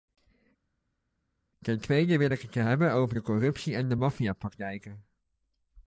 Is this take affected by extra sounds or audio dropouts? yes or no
no